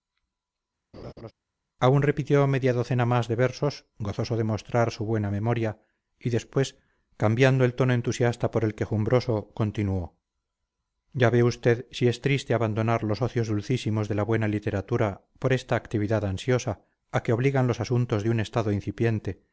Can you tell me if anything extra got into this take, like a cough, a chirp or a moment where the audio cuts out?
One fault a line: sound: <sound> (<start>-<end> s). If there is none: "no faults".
sound: laugh (0.9-1.3 s)